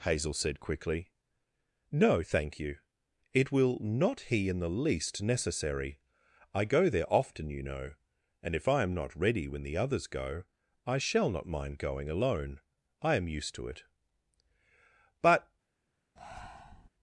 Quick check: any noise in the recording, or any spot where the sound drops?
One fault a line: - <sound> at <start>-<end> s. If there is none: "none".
- breath at 16.2-16.9 s